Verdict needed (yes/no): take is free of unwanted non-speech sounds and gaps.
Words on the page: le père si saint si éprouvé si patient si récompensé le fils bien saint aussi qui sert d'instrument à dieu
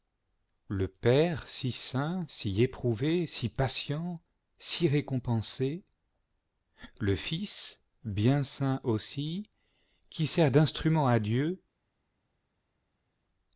yes